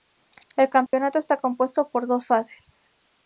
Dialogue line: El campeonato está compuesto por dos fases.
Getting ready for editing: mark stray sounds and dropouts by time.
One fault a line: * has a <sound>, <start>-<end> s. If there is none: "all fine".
* has a dropout, 0.9-0.9 s